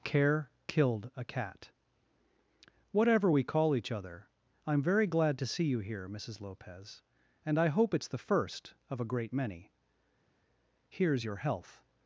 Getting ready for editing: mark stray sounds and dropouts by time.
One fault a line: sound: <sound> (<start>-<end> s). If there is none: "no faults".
no faults